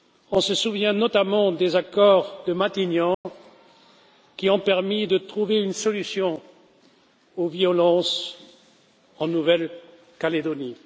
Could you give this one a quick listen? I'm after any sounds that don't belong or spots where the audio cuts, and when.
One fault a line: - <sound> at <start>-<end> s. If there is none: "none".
- dropout at 3.1-3.3 s